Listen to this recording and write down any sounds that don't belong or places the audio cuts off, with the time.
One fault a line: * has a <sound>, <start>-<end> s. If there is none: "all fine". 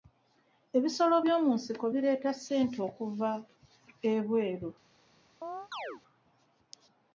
* has a chirp, 5.4-6.0 s